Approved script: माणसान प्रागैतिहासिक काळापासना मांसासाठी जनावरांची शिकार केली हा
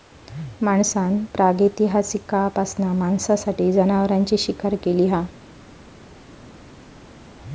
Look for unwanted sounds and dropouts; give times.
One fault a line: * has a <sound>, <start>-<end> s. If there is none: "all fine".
all fine